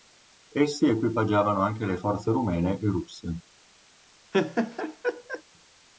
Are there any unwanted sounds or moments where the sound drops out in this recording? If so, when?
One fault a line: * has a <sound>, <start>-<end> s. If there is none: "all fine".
* has a laugh, 4.3-5.4 s